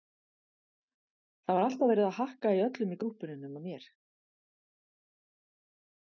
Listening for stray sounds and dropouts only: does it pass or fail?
pass